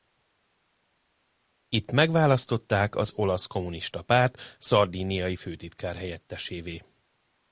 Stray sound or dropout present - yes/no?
no